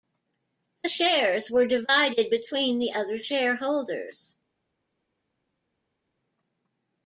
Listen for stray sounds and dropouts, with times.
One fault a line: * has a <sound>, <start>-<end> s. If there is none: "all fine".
all fine